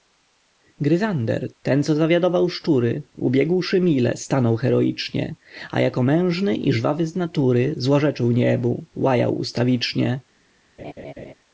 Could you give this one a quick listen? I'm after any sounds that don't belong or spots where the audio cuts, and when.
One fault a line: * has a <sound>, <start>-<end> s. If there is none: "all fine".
* has a laugh, 10.8-11.3 s